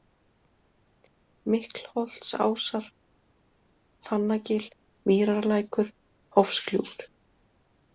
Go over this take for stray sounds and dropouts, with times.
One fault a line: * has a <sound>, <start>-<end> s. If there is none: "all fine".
all fine